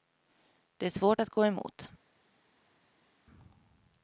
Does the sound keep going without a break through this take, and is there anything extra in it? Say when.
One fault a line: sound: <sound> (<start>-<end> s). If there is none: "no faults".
no faults